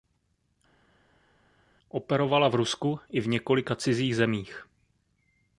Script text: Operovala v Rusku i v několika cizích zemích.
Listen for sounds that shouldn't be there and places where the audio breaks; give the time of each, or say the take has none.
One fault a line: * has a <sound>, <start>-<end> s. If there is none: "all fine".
all fine